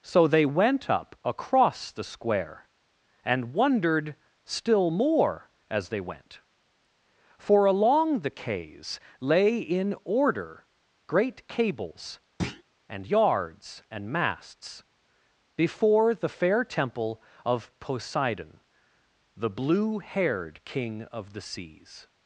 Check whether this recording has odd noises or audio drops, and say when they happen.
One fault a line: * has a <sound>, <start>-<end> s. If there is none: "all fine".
* has a thud, 12.4-12.6 s